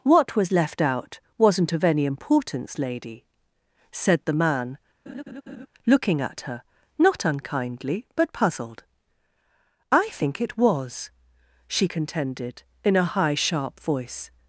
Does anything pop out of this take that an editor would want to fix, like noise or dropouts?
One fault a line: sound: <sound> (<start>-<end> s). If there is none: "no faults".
sound: laugh (5.1-5.7 s)